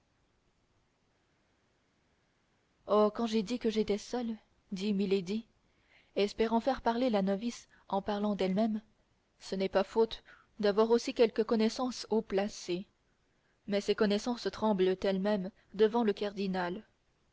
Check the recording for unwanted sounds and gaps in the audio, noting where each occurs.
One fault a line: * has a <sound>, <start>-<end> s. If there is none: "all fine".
all fine